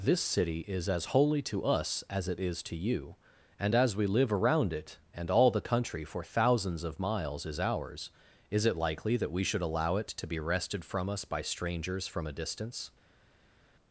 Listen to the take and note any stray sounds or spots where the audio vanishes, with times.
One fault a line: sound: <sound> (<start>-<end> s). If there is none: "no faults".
no faults